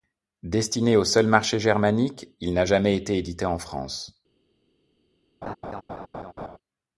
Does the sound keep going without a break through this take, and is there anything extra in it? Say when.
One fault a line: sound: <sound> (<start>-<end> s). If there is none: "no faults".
sound: laugh (5.4-6.6 s)